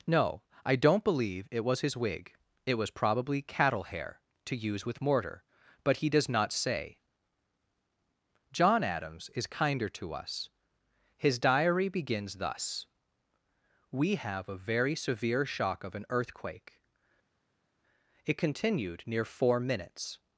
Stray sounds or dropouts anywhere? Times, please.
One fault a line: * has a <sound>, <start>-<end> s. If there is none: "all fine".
all fine